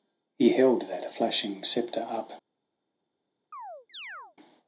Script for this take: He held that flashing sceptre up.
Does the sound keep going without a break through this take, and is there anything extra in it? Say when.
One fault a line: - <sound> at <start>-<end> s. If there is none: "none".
- chirp at 3.5-4.4 s